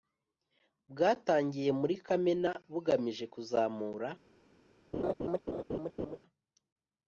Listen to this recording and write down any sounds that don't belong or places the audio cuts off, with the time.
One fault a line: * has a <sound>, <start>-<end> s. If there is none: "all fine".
* has a laugh, 4.9-6.2 s